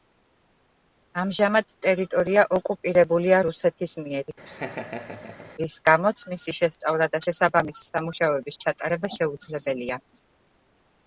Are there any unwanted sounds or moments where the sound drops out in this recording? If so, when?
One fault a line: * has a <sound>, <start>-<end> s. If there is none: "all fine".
* has a laugh, 4.5-5.5 s